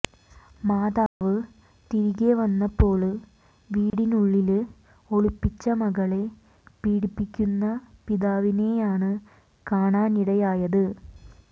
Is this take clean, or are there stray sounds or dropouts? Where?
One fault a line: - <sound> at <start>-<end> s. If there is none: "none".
- dropout at 1.1-1.2 s
- dropout at 3.9-3.9 s